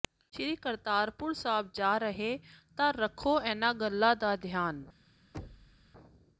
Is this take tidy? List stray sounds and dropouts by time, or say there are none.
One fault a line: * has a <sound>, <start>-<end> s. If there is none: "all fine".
* has a thud, 5.3-5.9 s